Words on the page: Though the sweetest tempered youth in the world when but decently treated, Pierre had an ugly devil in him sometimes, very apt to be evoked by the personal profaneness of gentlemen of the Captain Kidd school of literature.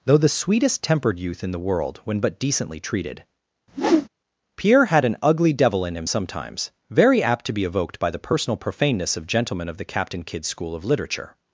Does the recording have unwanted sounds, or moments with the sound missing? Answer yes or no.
yes